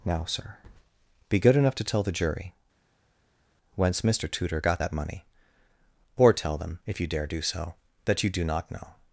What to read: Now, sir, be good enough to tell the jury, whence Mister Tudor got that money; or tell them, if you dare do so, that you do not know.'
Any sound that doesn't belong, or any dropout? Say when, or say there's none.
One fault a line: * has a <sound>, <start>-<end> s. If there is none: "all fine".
all fine